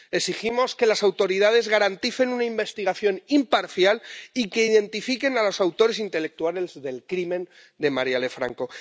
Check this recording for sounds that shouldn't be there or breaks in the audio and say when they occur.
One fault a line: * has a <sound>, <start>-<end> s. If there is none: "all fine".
all fine